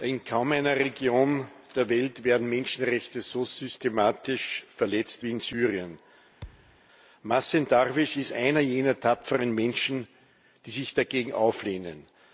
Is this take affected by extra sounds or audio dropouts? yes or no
yes